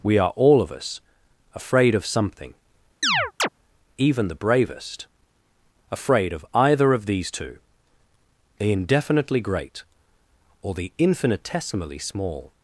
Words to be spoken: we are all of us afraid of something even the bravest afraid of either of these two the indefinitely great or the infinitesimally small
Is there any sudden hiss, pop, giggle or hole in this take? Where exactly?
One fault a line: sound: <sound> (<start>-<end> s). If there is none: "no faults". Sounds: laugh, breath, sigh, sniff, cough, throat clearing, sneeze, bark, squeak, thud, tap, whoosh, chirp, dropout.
sound: chirp (3.0-3.5 s)